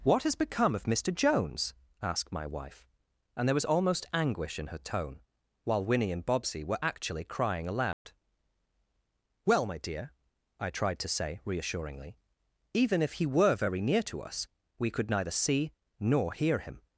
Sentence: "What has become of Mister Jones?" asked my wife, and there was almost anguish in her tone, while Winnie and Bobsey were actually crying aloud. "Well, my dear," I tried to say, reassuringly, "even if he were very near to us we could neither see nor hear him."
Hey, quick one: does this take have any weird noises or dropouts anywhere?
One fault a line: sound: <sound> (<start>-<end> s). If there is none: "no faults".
sound: dropout (7.9-8.1 s)